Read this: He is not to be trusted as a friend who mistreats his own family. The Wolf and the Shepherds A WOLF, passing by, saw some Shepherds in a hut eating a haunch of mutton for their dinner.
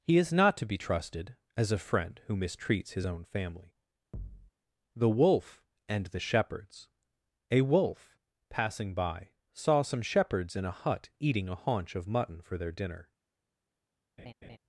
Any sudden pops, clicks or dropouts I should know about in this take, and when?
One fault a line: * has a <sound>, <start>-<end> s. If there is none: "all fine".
* has a thud, 4.1-4.5 s
* has a laugh, 14.2-14.6 s